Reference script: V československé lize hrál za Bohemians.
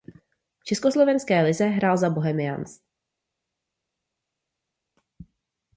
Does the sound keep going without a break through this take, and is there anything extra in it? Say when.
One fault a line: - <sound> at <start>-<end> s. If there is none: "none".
none